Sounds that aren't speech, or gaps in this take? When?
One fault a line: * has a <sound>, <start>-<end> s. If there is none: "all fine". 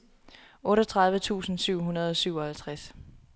all fine